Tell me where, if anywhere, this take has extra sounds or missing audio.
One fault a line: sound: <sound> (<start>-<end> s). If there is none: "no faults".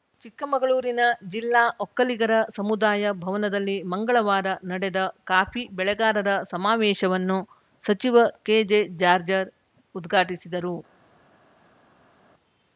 no faults